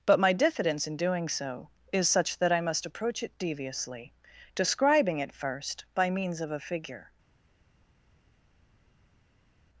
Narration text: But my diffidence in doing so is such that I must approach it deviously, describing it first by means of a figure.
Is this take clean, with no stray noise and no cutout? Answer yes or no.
yes